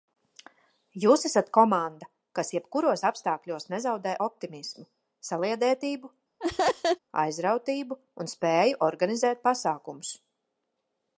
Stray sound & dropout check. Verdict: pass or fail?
fail